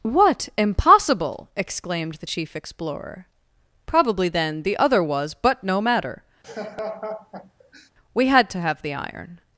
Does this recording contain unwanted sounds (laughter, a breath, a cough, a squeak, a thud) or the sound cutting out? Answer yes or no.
yes